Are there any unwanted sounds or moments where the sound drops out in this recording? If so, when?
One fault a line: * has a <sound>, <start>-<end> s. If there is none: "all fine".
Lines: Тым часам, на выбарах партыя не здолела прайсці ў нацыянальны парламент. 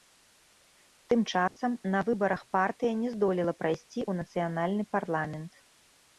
* has a dropout, 1.5-1.6 s